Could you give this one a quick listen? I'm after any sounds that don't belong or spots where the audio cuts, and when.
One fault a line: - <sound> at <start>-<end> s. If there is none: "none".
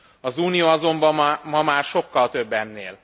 none